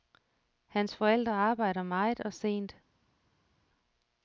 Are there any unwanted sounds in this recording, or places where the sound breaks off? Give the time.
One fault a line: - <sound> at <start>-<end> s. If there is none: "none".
none